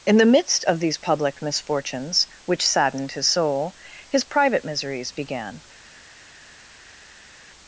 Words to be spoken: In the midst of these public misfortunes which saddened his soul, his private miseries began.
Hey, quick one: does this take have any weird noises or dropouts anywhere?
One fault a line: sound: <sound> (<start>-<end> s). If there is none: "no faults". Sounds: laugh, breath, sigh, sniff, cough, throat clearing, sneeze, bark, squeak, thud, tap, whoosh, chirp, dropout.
no faults